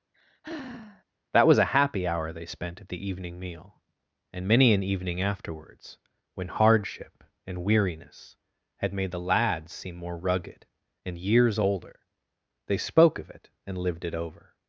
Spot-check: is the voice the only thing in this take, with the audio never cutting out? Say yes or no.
no